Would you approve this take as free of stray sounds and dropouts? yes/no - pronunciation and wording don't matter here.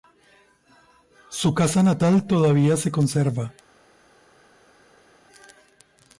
yes